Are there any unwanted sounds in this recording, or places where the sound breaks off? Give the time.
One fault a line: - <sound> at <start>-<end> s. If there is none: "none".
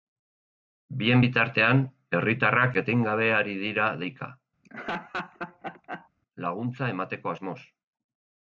- laugh at 4.6-6.1 s